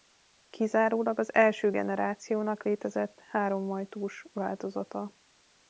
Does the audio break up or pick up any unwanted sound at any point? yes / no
no